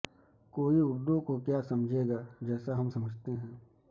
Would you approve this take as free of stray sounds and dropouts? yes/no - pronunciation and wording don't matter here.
yes